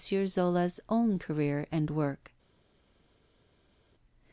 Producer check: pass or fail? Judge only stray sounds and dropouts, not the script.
pass